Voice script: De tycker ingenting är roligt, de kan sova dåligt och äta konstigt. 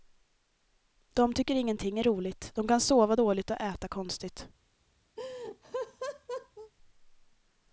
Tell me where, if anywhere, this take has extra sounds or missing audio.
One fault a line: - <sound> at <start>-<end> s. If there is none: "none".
- laugh at 5.2-6.7 s